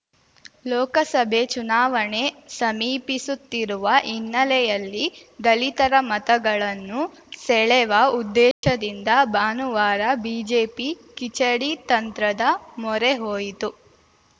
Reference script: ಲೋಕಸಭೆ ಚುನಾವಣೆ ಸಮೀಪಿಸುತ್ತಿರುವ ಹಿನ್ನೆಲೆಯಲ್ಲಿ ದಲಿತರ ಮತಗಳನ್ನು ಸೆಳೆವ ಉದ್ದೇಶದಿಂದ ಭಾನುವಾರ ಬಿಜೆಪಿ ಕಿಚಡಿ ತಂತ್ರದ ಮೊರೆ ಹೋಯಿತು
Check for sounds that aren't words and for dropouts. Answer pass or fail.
fail